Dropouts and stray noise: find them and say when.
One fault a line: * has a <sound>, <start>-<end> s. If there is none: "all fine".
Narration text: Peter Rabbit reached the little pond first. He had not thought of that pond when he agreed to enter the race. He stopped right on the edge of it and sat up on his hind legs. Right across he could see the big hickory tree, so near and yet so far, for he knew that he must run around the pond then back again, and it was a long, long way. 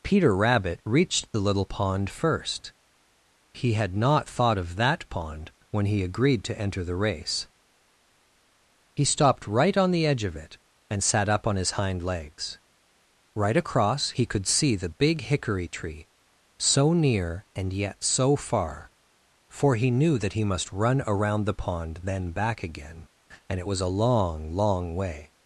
all fine